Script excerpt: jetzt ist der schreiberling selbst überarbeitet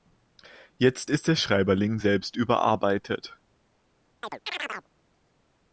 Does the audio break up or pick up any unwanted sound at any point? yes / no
yes